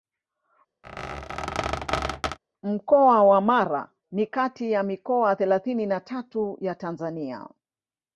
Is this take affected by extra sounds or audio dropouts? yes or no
yes